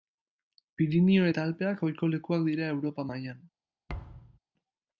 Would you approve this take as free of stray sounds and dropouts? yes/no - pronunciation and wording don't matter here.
no